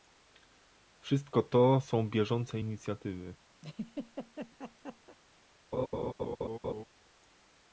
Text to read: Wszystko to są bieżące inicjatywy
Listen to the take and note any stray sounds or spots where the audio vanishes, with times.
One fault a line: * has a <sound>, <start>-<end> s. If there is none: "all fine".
* has a laugh, 3.6-5.2 s
* has a laugh, 5.7-6.8 s